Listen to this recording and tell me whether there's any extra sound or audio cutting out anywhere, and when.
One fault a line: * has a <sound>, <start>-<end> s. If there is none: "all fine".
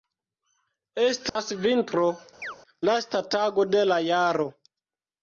* has a dropout, 1.3-1.4 s
* has a chirp, 2.4-2.6 s